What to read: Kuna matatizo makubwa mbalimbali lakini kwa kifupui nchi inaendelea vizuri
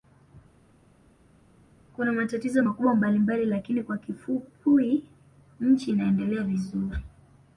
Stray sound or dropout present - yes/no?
no